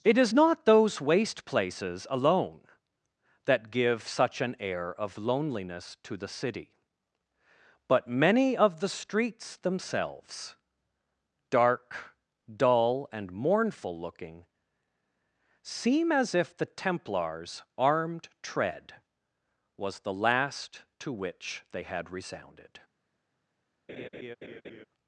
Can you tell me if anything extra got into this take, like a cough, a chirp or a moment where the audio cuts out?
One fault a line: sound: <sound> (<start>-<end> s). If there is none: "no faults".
sound: laugh (23.9-24.9 s)